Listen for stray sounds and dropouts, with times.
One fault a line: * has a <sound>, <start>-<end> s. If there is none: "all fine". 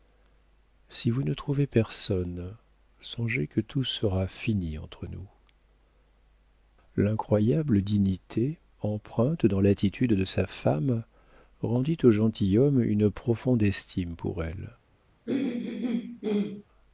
* has a throat clearing, 15.3-16.6 s